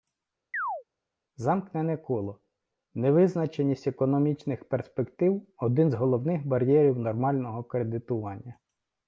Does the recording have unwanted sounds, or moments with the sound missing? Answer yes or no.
yes